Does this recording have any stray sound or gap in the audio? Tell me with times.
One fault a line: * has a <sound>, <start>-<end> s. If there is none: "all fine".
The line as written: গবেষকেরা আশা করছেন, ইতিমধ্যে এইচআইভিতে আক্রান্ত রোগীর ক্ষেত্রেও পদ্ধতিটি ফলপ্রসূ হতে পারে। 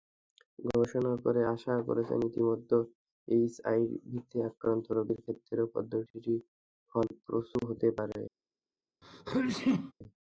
* has a sneeze, 9.0-9.9 s